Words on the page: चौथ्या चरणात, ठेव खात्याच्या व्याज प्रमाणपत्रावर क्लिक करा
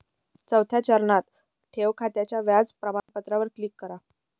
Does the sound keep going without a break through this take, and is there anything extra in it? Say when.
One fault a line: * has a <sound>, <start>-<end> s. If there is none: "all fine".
* has a dropout, 3.0-3.1 s